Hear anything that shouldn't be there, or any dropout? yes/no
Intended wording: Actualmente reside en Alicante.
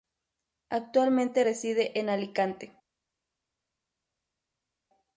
no